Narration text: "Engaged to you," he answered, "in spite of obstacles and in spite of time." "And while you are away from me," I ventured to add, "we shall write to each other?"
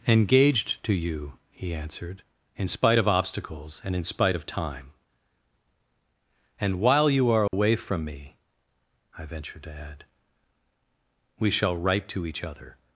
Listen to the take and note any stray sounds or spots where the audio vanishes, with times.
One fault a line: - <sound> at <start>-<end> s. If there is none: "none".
- dropout at 7.5-7.5 s